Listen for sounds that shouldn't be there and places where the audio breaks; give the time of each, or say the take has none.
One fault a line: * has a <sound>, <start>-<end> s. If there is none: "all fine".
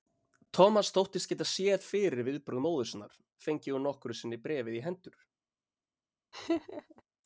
* has a laugh, 6.3-7.0 s